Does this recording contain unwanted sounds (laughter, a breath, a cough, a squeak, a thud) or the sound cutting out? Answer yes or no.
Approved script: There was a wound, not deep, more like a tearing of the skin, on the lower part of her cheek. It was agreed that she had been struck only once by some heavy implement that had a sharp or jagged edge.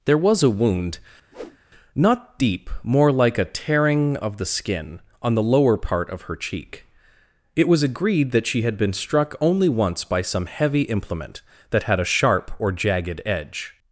yes